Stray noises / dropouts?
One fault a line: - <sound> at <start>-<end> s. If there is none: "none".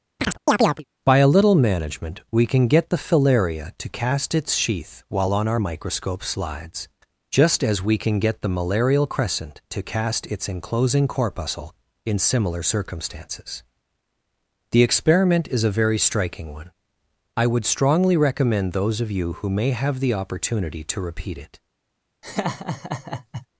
- chirp at 0.2-0.8 s
- laugh at 22.2-23.5 s